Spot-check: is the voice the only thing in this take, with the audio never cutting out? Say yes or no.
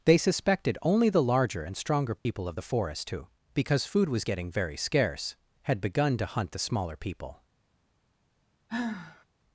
no